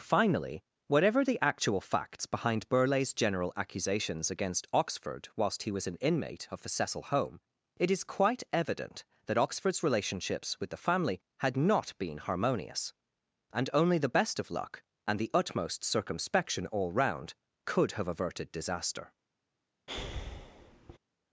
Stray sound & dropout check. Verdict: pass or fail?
fail